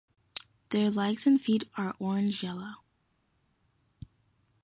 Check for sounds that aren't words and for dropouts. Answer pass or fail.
pass